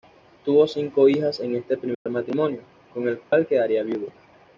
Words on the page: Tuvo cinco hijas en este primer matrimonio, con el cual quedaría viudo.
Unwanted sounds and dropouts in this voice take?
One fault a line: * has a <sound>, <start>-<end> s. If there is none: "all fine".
* has a dropout, 1.9-2.1 s
* has a dropout, 3.2-3.3 s